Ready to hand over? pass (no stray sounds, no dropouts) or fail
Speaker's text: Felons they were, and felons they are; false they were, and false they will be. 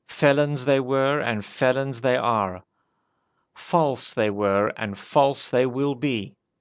pass